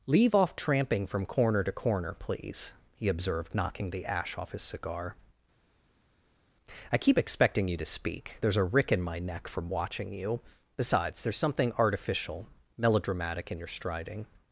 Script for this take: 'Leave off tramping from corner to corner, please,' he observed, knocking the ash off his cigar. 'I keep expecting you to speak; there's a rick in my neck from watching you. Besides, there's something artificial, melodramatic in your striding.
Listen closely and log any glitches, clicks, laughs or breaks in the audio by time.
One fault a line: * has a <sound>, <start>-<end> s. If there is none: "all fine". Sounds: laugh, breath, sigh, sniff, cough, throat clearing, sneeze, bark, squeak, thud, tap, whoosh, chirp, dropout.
all fine